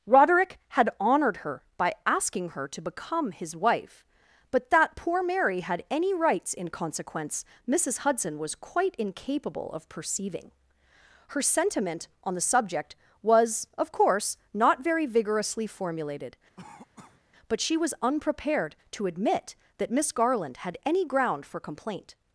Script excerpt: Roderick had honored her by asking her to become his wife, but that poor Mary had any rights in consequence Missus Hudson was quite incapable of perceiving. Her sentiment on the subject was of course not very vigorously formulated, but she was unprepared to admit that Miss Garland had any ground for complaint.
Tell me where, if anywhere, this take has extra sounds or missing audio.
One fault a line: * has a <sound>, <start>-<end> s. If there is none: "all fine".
* has a cough, 16.6-17.2 s